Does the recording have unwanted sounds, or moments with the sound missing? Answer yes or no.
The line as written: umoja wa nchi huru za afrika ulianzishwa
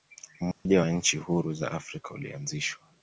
yes